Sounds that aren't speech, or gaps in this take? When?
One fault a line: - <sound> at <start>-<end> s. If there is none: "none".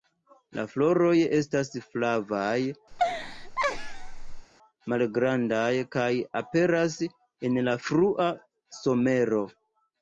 - laugh at 2.9-4.5 s